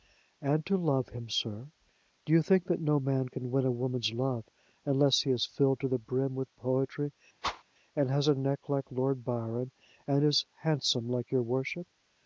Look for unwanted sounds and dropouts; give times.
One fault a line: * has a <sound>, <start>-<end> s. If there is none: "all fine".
* has a whoosh, 7.4-7.6 s